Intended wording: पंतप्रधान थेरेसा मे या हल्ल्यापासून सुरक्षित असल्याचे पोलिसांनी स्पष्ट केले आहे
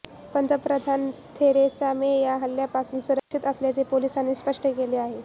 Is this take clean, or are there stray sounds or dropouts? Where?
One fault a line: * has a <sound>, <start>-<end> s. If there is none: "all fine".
* has a dropout, 3.2-3.3 s